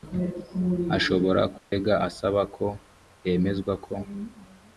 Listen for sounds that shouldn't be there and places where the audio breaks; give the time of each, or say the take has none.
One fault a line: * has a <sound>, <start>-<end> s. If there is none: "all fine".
* has a dropout, 1.6-1.7 s